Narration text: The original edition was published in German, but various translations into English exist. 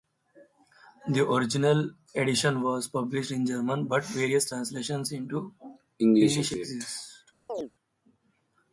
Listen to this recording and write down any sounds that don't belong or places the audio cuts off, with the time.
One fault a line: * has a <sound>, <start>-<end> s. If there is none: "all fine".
* has a chirp, 7.5-7.7 s